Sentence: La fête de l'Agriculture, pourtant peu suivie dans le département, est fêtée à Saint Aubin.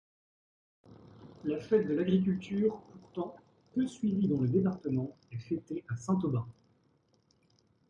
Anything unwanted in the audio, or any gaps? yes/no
no